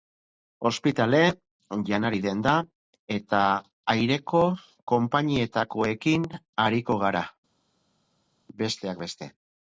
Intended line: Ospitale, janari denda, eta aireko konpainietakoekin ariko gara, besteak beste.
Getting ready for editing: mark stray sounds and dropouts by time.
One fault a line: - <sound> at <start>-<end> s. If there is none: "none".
none